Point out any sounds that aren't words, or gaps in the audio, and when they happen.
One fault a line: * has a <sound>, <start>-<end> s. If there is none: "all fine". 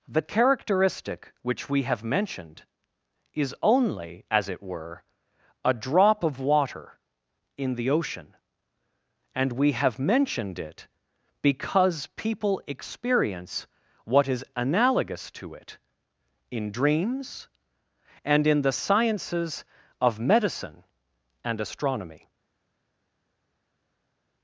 all fine